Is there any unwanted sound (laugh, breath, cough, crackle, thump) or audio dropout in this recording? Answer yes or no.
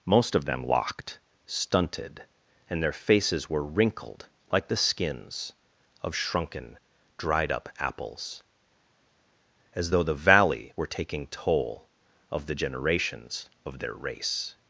no